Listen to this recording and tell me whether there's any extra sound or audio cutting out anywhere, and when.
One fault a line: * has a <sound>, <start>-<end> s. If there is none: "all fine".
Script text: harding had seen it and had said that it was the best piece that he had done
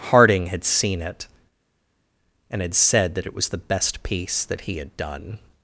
all fine